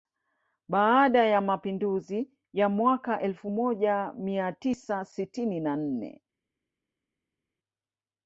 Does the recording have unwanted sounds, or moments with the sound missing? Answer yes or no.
no